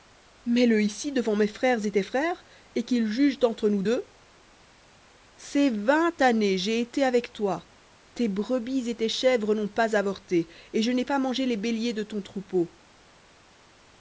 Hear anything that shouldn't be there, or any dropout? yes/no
no